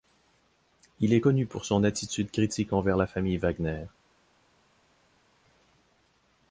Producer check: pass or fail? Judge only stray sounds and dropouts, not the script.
pass